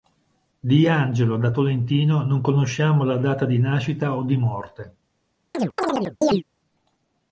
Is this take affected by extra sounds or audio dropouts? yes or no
yes